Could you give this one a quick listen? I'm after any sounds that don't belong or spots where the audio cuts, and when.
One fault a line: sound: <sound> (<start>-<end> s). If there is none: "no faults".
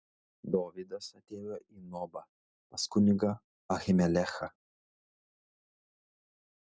no faults